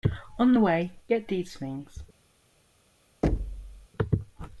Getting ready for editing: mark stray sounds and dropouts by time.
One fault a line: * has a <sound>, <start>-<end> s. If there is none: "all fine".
* has a thud, 3.2-3.9 s